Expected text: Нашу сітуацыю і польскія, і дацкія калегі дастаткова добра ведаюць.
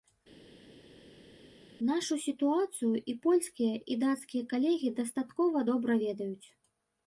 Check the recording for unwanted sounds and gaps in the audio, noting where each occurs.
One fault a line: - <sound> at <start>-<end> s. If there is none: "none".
none